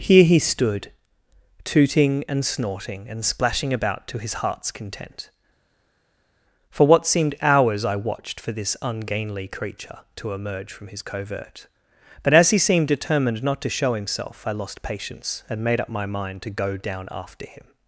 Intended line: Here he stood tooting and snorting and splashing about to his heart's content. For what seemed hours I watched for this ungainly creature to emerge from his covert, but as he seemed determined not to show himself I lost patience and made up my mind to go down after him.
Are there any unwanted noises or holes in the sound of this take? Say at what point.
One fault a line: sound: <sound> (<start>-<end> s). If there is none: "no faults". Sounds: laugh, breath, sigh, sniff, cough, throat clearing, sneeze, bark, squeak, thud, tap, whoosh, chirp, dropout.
no faults